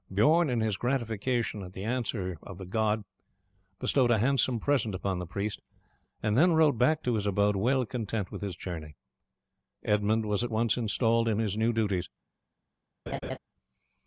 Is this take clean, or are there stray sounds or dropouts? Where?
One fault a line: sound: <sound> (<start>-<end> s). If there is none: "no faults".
sound: laugh (13.1-13.4 s)